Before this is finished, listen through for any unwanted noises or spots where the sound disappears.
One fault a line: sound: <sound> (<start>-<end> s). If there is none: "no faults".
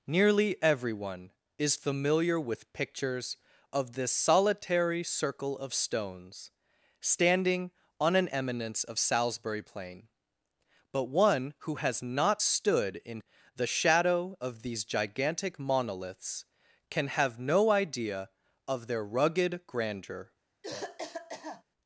sound: cough (20.6-21.6 s)